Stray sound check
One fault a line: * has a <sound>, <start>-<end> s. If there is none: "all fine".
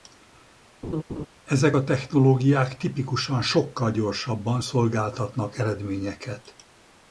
* has a laugh, 0.8-1.3 s